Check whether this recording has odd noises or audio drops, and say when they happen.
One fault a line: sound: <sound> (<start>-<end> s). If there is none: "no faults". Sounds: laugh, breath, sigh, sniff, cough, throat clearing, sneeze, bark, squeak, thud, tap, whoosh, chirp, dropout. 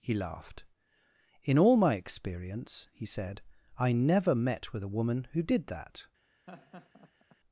sound: laugh (6.5-7.4 s)